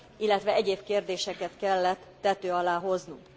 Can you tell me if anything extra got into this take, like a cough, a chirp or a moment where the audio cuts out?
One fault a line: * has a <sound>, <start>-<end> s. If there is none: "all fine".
all fine